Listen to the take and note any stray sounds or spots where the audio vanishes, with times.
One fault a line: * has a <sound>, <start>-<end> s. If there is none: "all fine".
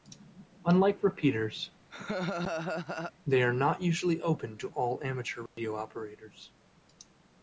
* has a laugh, 1.9-3.1 s
* has a dropout, 5.5-5.6 s